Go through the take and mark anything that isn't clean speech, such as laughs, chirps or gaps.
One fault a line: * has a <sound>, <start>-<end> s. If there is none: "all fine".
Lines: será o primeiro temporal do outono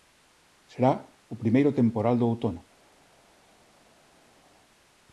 all fine